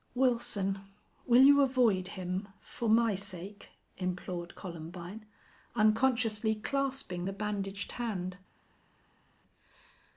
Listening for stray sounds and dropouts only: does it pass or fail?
pass